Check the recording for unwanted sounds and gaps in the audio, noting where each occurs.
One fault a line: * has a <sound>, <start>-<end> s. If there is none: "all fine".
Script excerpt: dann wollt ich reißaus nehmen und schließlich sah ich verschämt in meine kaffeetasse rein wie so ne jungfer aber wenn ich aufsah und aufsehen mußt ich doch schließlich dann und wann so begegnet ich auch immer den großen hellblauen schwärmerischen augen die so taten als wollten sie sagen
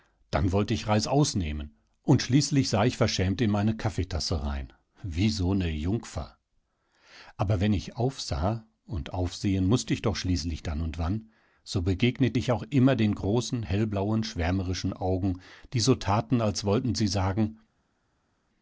all fine